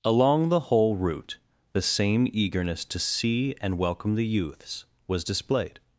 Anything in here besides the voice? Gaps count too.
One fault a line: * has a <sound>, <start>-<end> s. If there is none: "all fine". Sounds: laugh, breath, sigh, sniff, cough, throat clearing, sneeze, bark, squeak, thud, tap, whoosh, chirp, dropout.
all fine